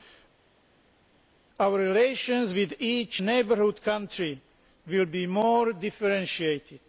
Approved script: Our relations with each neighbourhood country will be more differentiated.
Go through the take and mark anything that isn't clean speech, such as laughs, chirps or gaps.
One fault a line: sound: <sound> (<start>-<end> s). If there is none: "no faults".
no faults